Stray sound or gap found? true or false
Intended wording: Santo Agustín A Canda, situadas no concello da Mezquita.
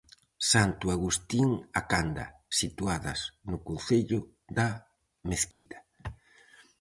true